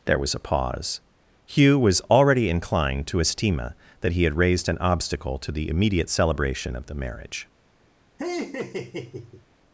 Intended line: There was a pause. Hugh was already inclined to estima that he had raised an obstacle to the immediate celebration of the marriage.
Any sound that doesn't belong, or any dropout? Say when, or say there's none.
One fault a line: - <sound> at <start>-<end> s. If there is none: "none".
- laugh at 8.2-9.5 s